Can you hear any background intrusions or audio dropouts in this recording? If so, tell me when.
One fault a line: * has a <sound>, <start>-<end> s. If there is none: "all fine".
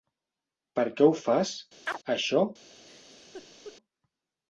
* has a chirp, 1.9-2.0 s
* has a laugh, 2.7-3.8 s